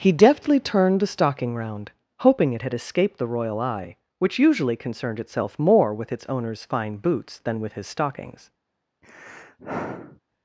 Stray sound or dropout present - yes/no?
yes